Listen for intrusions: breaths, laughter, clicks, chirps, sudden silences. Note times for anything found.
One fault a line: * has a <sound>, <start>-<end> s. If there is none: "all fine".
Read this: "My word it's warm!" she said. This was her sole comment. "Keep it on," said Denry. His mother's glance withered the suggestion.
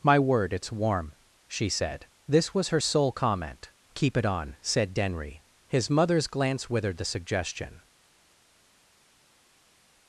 all fine